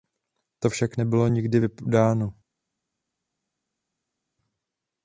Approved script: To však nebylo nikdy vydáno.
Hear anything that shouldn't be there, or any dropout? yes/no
no